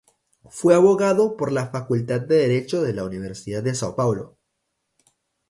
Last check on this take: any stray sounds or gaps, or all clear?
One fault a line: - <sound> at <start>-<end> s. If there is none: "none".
none